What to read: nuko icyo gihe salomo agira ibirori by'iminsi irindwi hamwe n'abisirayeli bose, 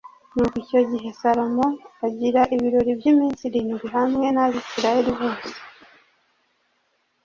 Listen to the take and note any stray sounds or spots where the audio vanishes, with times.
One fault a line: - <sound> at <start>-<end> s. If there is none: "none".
none